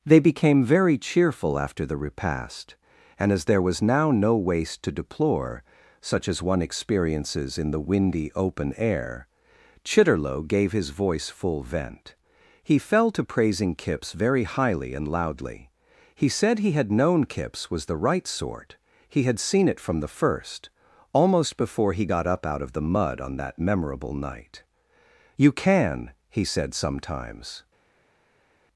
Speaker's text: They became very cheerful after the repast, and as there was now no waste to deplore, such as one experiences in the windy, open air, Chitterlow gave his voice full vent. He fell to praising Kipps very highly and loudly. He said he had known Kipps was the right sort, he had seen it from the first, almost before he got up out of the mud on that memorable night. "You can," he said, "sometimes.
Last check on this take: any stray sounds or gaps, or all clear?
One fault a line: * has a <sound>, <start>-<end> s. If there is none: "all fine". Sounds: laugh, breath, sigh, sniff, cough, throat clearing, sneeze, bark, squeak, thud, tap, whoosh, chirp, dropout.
all fine